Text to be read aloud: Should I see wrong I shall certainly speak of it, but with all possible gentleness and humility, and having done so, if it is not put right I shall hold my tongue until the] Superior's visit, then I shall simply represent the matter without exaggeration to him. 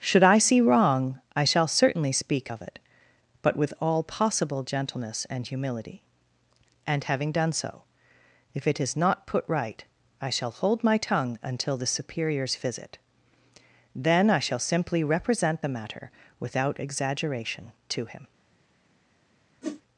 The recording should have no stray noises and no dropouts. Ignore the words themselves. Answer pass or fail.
fail